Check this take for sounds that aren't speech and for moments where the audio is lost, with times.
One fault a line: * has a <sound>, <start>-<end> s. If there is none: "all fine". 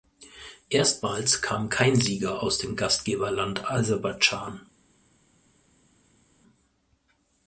all fine